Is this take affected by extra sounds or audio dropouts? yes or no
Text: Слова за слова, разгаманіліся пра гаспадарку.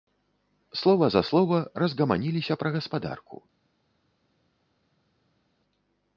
no